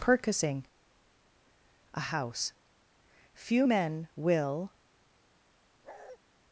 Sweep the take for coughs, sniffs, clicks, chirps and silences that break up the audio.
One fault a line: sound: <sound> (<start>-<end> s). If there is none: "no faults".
sound: bark (5.8-6.2 s)